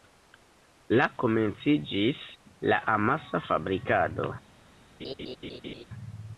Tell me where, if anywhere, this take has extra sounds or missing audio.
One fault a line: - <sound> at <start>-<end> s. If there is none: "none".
- laugh at 5.0-5.8 s